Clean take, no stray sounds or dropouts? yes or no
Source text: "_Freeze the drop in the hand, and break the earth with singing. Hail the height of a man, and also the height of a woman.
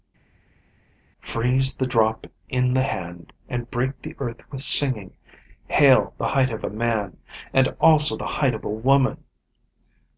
yes